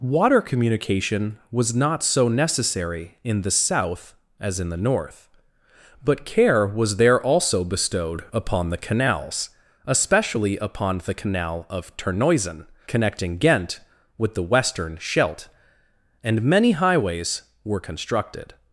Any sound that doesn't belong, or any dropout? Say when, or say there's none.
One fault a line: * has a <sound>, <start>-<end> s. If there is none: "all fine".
all fine